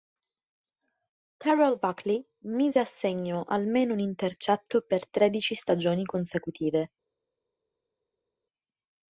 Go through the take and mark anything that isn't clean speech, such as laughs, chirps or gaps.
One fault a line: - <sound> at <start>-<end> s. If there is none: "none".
none